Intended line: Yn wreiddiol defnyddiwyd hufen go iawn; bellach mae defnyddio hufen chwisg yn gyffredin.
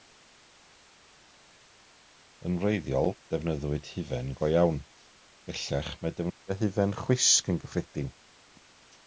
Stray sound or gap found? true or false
false